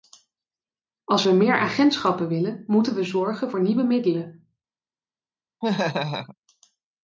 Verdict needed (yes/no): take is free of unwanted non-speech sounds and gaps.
no